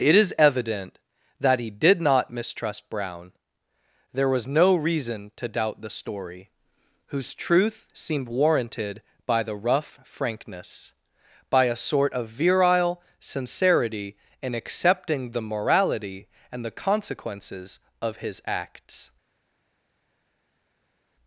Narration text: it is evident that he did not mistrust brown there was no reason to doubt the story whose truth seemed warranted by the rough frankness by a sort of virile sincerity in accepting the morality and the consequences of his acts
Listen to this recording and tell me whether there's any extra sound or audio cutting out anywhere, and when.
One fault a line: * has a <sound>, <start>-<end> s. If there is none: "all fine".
all fine